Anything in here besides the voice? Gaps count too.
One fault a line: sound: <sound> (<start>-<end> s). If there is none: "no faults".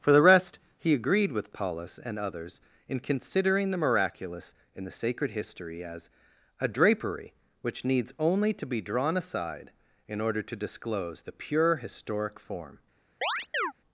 sound: chirp (13.2-13.7 s)